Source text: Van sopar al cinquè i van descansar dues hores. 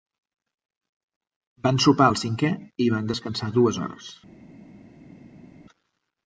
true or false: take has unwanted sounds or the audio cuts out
false